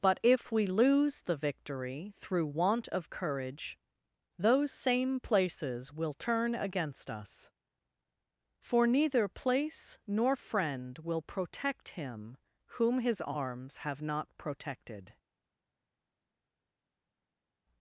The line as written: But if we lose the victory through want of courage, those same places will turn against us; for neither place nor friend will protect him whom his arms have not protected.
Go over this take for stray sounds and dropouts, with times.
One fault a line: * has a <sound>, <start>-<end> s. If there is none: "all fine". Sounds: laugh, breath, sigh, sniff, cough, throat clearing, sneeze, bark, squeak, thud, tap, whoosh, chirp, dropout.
all fine